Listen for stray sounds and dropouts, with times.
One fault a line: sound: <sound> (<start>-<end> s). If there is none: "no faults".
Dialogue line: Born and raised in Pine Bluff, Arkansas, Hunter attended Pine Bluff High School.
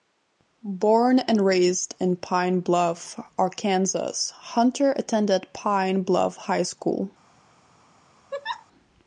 sound: laugh (8.3-8.7 s)